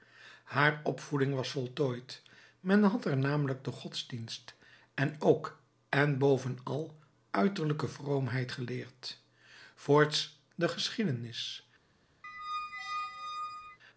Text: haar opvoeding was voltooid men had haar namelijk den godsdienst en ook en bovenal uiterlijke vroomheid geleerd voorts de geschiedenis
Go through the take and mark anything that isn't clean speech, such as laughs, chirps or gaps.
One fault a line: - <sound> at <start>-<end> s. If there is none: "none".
- squeak at 12.2-13.8 s